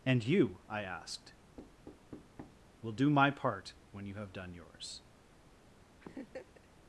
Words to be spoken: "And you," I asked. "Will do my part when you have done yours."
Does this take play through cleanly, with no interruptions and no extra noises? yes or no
no